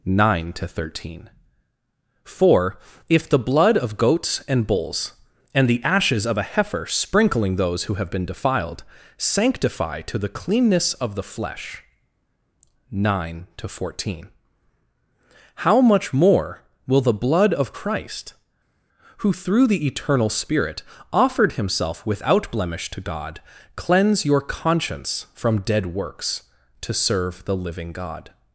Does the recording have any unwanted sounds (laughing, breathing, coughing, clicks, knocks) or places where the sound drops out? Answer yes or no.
no